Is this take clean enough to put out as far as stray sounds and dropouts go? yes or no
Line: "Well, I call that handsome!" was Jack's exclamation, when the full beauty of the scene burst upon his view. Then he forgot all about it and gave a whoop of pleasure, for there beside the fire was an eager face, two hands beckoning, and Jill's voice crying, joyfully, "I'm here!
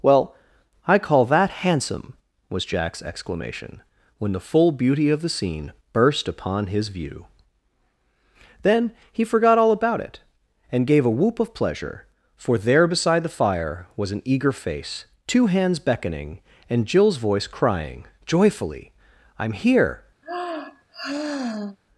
no